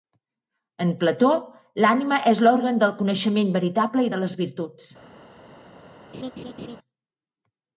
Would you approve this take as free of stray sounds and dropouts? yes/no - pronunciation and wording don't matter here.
no